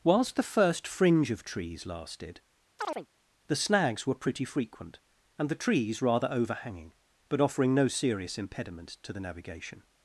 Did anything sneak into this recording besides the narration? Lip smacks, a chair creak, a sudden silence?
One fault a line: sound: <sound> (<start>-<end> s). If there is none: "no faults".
sound: chirp (2.8-3.1 s)